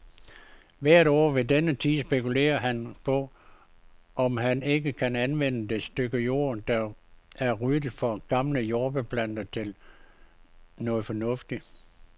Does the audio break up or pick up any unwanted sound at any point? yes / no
no